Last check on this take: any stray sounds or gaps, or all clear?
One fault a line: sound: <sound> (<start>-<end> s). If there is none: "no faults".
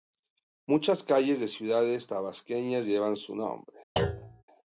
sound: thud (4.0-4.4 s)